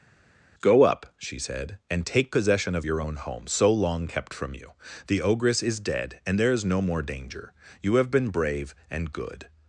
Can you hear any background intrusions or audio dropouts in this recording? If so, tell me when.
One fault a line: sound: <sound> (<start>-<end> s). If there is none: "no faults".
no faults